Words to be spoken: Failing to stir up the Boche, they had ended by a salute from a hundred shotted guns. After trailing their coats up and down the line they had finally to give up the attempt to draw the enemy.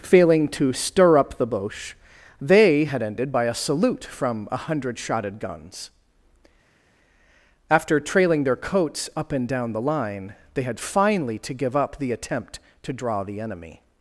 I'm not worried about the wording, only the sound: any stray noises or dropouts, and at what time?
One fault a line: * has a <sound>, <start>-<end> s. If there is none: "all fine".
all fine